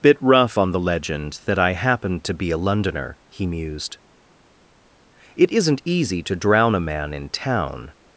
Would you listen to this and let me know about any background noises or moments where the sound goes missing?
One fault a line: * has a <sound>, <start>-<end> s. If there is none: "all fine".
all fine